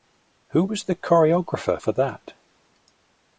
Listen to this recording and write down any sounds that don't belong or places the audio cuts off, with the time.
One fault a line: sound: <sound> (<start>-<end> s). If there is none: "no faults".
no faults